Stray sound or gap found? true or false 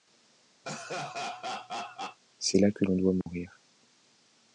true